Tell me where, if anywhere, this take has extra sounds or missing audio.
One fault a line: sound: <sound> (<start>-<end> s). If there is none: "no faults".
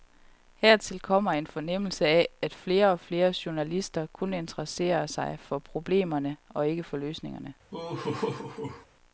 sound: laugh (7.7-8.9 s)